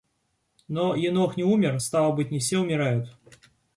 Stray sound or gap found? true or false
false